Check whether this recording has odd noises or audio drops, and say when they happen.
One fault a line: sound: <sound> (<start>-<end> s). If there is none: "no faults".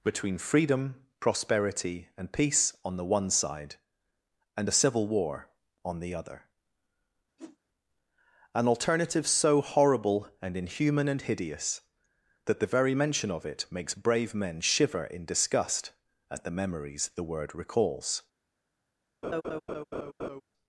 sound: whoosh (7.4-7.6 s)
sound: laugh (19.2-20.4 s)